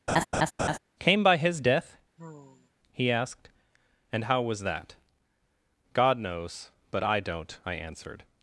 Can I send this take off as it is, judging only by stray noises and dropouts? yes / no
no